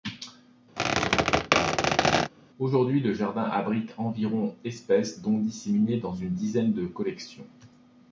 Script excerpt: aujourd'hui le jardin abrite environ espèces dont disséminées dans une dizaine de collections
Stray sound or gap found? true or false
true